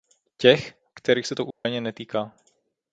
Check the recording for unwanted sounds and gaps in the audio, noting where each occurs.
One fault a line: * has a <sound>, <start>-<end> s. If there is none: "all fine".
* has a dropout, 1.5-1.7 s